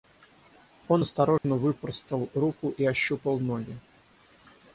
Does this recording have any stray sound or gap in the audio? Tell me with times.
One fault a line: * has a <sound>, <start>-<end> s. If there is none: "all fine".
* has a dropout, 1.4-1.4 s